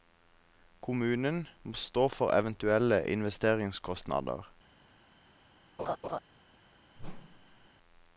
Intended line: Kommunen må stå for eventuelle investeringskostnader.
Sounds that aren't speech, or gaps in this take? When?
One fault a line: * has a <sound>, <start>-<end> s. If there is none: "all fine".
* has a laugh, 5.8-6.2 s
* has a whoosh, 7.0-7.7 s